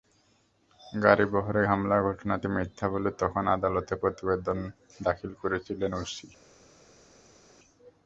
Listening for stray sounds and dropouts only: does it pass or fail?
pass